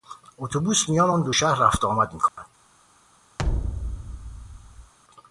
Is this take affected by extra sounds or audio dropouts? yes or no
yes